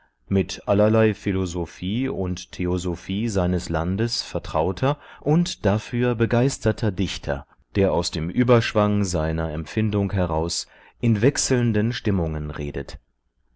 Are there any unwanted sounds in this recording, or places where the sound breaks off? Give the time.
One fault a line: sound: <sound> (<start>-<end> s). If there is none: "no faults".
no faults